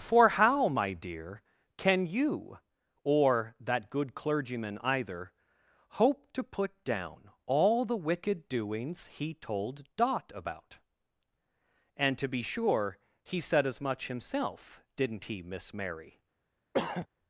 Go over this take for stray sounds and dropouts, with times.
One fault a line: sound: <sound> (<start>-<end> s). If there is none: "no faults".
sound: throat clearing (16.7-17.1 s)